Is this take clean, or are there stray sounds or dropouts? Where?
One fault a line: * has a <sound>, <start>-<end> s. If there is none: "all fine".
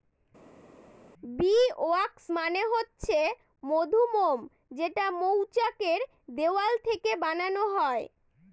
all fine